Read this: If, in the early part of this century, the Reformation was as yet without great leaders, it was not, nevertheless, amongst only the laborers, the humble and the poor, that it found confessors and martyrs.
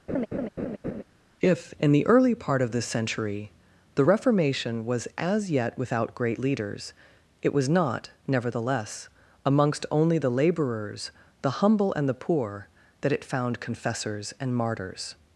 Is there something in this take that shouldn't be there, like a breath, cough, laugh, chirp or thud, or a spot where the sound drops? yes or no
yes